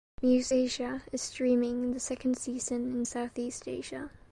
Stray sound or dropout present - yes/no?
no